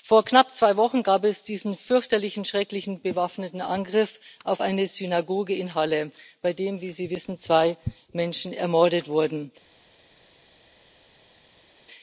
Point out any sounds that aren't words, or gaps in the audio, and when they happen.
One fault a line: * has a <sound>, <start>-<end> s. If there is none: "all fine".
all fine